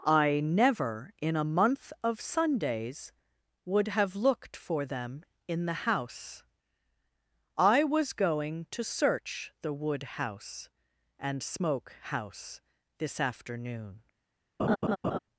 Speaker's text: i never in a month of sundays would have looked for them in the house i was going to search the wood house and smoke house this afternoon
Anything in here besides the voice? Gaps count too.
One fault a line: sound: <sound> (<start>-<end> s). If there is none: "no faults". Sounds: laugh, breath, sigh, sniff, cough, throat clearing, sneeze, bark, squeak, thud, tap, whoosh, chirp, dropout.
sound: laugh (14.6-15.2 s)